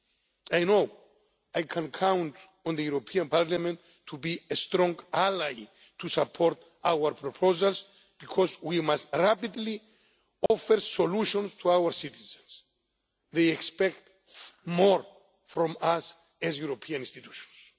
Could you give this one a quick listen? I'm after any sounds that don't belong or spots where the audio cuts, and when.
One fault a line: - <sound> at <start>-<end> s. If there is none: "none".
- dropout at 10.5-10.5 s